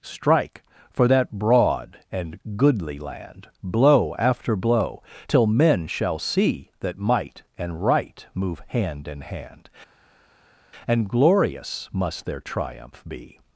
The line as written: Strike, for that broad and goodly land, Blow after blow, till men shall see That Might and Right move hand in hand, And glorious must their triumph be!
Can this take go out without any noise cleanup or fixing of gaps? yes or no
yes